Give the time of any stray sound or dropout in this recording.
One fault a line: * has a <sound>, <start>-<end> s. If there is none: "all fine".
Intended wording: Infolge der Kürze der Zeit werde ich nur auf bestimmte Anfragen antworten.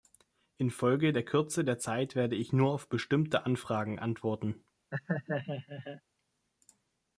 * has a laugh, 4.9-6.0 s